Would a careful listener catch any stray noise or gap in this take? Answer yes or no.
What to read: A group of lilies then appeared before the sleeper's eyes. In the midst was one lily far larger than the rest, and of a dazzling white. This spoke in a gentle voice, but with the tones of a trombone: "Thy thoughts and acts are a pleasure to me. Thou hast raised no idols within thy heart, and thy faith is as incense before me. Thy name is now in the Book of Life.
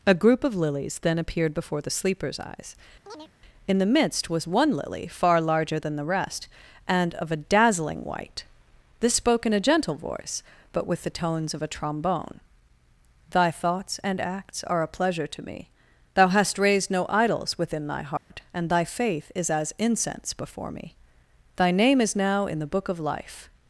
yes